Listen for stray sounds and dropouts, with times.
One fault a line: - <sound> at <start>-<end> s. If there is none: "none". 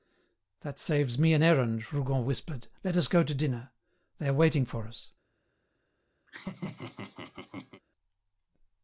- laugh at 6.3-7.8 s